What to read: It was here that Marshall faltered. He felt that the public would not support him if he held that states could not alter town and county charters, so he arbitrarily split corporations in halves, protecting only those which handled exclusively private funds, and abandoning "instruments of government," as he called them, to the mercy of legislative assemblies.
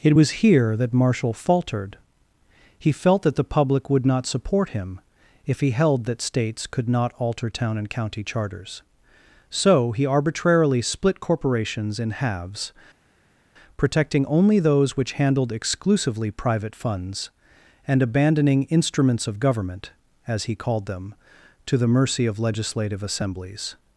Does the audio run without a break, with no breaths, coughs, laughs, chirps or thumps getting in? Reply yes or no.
yes